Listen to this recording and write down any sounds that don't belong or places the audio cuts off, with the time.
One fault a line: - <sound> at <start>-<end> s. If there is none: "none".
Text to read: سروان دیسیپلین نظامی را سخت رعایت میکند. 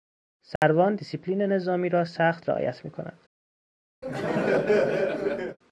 - dropout at 0.6-0.6 s
- laugh at 4.0-5.6 s